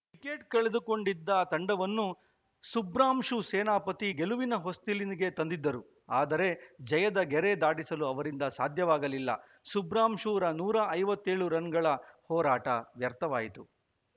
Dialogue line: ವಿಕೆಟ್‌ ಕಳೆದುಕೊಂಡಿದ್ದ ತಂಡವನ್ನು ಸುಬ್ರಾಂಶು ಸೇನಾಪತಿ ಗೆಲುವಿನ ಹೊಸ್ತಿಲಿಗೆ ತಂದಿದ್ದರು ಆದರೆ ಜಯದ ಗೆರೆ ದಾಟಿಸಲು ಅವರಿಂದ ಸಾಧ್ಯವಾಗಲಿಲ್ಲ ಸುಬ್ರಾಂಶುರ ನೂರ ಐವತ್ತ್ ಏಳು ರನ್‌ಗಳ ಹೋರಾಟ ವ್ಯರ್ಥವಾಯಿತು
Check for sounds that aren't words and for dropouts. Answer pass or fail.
pass